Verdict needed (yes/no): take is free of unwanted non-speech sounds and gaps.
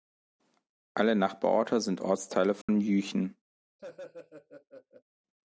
no